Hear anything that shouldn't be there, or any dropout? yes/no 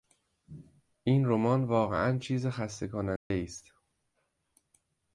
yes